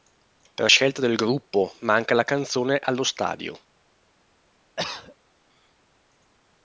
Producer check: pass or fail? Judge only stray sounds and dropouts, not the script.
fail